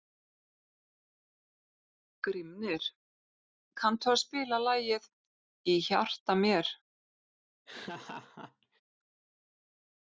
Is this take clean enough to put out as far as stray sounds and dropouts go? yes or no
no